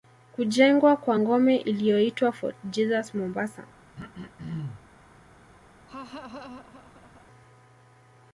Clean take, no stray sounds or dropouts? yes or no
no